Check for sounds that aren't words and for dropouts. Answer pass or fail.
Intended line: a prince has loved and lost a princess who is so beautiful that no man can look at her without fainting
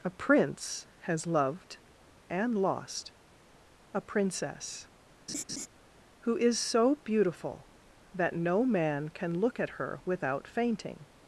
fail